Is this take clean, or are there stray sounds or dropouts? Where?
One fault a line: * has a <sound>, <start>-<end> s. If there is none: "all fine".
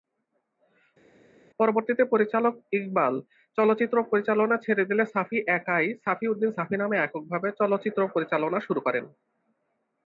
all fine